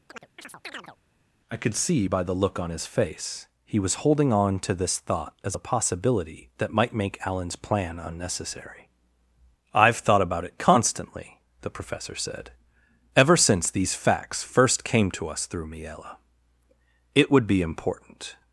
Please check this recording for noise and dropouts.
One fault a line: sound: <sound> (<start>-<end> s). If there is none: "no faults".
sound: chirp (0.1-1.0 s)